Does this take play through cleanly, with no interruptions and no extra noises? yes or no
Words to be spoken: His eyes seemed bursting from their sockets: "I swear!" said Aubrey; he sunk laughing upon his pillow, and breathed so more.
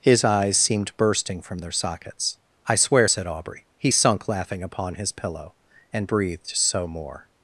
yes